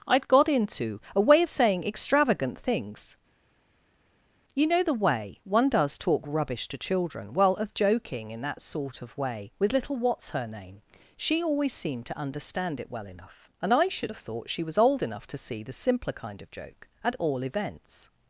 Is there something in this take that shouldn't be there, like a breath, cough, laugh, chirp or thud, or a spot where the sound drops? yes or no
no